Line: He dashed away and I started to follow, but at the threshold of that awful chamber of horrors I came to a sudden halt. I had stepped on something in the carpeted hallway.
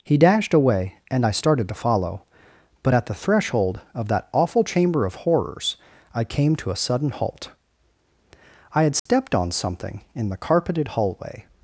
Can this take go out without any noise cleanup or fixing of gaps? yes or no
no